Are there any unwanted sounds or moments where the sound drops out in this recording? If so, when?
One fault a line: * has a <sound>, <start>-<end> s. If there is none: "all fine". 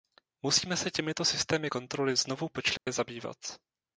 * has a dropout, 2.8-2.9 s